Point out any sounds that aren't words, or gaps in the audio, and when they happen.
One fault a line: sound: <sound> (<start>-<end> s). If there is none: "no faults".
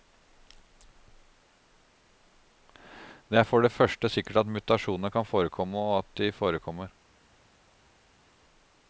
no faults